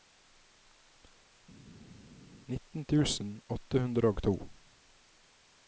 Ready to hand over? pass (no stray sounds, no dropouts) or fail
pass